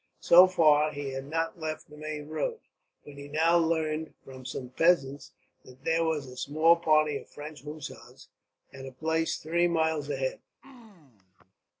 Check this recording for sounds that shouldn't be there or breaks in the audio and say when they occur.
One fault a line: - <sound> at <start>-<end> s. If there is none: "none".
- throat clearing at 10.6-11.5 s